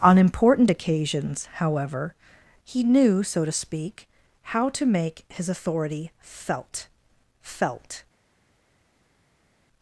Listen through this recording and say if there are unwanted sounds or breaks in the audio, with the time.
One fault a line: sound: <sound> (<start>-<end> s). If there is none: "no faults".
no faults